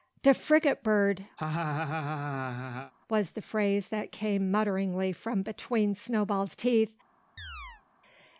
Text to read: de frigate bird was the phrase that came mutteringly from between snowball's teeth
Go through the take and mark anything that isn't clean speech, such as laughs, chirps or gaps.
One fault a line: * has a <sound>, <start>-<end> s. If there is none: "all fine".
* has a laugh, 1.4-2.9 s
* has a chirp, 7.4-7.8 s